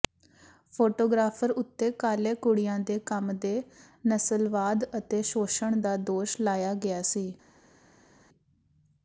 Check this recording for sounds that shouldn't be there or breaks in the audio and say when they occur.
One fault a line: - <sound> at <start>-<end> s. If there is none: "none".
none